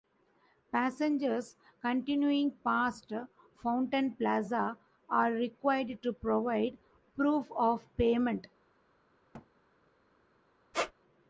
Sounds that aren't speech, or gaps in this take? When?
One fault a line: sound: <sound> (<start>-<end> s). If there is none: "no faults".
sound: thud (9.3-9.5 s)
sound: squeak (10.7-10.9 s)